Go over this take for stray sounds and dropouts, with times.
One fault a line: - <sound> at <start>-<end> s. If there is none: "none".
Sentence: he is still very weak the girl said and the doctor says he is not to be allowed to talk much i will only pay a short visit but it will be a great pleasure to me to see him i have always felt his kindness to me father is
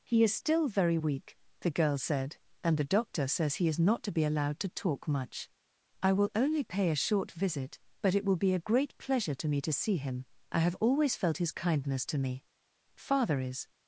none